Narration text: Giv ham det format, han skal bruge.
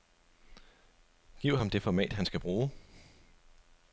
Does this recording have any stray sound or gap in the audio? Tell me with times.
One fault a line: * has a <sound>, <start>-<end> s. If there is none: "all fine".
all fine